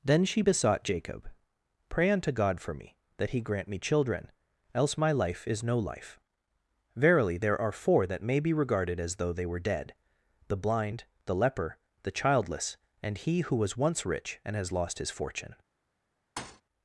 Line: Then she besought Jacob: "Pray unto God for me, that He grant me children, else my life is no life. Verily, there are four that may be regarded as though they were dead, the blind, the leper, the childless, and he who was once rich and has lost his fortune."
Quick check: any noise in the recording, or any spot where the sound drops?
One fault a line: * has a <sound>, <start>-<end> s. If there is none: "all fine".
* has a thud, 16.4-16.6 s